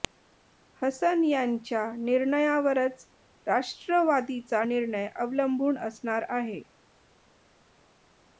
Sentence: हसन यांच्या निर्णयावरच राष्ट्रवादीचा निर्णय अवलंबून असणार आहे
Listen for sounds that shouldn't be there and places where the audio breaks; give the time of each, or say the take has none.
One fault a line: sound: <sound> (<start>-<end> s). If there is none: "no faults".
no faults